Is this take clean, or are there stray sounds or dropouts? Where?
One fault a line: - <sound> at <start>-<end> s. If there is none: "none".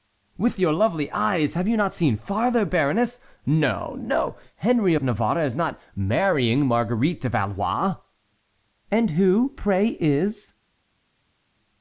none